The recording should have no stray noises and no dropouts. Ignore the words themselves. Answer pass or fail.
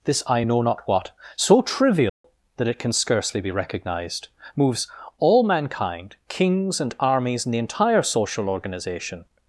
fail